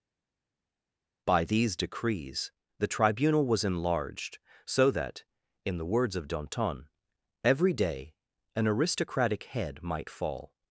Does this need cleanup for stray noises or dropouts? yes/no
no